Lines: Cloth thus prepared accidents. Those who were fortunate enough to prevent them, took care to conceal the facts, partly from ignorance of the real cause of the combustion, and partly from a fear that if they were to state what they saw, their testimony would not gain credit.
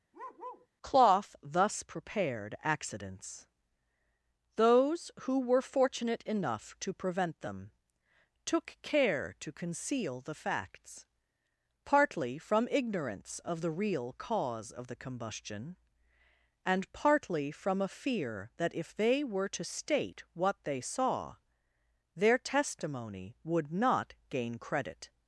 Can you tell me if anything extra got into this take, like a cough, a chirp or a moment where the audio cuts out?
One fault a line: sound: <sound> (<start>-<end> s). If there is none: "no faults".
sound: bark (0.1-0.7 s)